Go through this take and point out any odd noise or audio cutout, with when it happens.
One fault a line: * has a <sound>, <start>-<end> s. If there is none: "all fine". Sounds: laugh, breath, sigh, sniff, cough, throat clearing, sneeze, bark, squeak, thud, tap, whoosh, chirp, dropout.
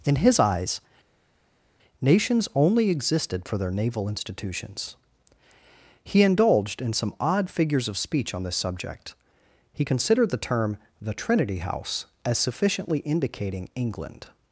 all fine